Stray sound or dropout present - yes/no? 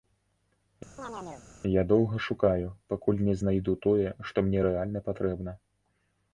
yes